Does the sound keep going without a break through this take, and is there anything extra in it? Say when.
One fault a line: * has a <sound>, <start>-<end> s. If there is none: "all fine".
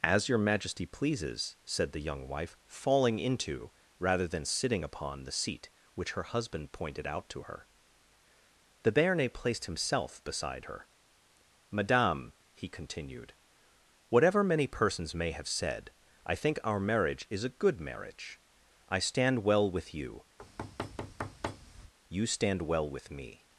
* has a thud, 20.4-21.9 s